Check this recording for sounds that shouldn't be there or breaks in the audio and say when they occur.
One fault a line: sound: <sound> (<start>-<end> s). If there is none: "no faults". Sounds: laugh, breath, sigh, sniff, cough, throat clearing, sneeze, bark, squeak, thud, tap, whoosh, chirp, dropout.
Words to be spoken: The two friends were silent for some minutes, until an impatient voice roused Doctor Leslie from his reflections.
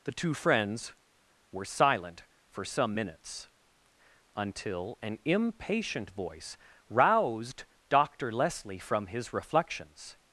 no faults